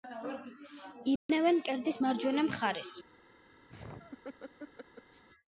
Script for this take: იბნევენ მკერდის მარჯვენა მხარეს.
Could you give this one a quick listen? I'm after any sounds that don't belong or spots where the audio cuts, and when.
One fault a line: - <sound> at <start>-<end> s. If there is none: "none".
- dropout at 1.2-1.3 s
- laugh at 3.7-5.2 s